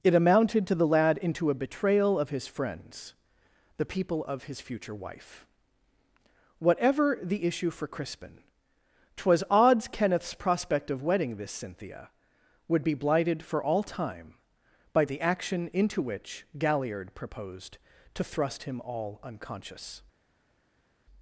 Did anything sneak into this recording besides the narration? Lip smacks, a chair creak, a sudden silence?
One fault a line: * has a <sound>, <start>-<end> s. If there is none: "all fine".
all fine